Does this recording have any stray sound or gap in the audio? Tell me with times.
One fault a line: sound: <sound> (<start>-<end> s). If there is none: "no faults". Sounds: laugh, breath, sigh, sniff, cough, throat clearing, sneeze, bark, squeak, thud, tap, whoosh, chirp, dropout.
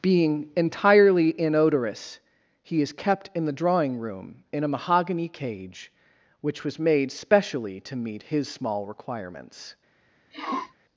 sound: sniff (10.3-10.7 s)